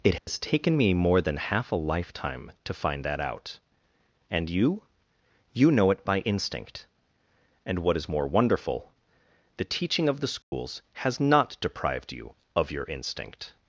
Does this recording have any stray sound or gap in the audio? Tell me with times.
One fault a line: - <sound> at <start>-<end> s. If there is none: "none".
- dropout at 0.2-0.3 s
- dropout at 10.4-10.5 s